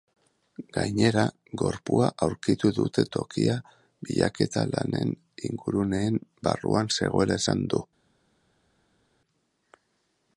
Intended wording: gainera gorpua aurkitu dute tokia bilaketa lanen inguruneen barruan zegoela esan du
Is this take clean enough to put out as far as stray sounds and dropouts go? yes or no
yes